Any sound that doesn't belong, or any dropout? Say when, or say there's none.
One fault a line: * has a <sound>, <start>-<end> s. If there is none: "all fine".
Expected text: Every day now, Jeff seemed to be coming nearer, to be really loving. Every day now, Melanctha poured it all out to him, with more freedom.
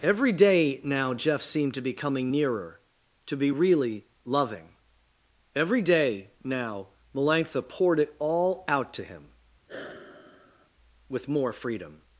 * has a sigh, 9.7-10.7 s